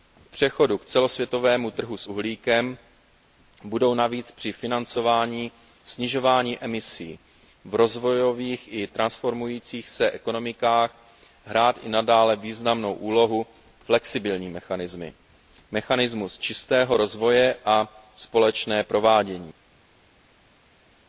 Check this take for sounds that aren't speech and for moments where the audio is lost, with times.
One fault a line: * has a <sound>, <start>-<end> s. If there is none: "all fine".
all fine